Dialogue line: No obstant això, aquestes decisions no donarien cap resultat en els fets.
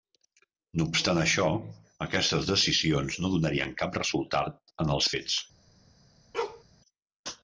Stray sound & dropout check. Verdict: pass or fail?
fail